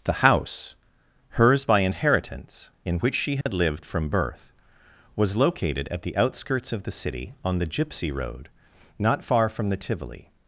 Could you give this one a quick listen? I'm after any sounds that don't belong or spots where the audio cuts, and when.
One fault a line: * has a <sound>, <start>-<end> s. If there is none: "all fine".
* has a dropout, 3.4-3.5 s